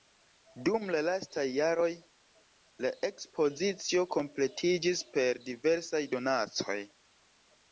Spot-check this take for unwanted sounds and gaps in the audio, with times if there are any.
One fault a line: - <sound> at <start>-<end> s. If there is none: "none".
none